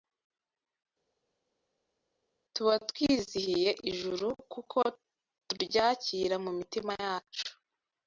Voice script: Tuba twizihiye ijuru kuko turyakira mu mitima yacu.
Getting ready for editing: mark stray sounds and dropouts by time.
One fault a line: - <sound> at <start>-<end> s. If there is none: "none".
none